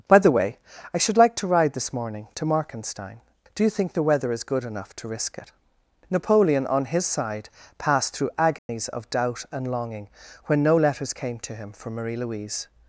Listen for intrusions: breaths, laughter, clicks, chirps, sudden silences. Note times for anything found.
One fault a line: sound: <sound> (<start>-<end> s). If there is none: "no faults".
sound: dropout (8.6-8.7 s)